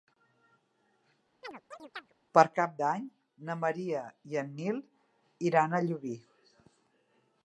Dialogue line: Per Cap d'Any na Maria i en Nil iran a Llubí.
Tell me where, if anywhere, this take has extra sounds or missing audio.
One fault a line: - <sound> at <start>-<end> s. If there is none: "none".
- chirp at 1.4-2.1 s